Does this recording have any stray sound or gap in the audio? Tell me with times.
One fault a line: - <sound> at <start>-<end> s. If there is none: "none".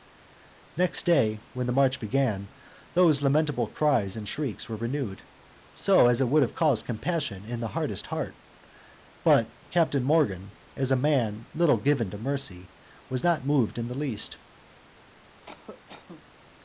- cough at 15.3-16.3 s